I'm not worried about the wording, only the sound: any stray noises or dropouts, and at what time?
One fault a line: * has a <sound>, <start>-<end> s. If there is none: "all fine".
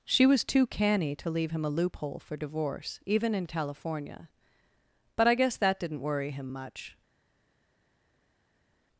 all fine